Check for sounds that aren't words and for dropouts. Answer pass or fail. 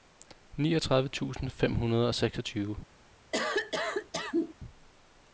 fail